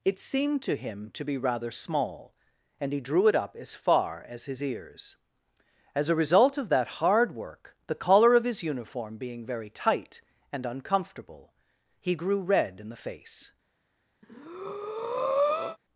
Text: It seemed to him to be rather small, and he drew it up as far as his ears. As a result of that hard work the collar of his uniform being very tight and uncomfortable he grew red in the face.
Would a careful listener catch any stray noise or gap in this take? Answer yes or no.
yes